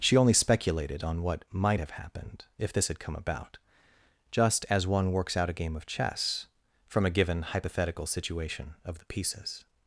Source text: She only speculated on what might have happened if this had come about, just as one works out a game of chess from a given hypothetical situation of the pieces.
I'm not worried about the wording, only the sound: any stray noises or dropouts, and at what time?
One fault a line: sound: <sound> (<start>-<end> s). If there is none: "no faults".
no faults